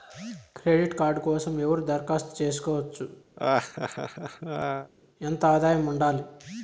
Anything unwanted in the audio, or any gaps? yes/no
yes